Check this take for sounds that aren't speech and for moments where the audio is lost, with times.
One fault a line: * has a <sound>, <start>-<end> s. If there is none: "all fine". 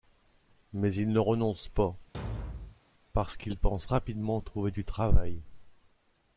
* has a thud, 2.1-2.8 s